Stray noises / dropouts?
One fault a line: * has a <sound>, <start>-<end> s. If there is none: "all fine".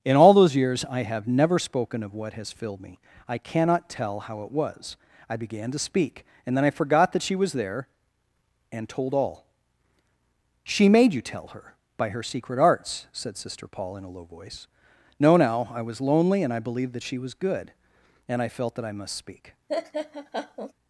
* has a laugh, 19.7-20.7 s